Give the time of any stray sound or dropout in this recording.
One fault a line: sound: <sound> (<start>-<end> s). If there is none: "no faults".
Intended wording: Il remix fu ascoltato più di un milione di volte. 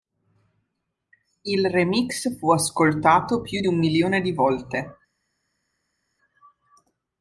no faults